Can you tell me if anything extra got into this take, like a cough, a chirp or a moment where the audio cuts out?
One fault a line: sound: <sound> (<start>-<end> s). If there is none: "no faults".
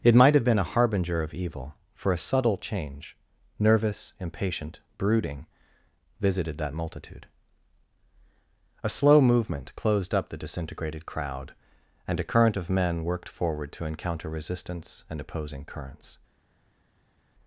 no faults